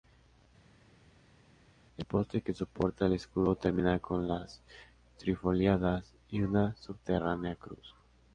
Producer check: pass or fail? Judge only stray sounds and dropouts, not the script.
pass